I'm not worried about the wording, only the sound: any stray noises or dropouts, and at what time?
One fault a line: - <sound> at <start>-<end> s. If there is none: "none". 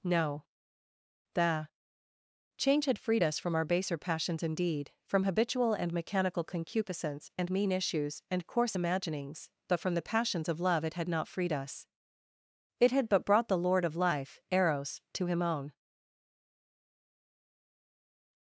none